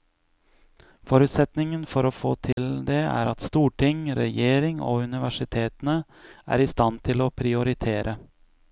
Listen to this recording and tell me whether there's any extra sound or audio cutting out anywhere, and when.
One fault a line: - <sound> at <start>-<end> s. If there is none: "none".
- dropout at 2.5-2.6 s